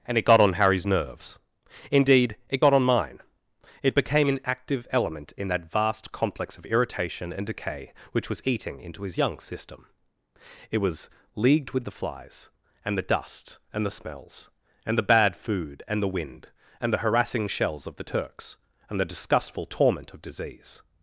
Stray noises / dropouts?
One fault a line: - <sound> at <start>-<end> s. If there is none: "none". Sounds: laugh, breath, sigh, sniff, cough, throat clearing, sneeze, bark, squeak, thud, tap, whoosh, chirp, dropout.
none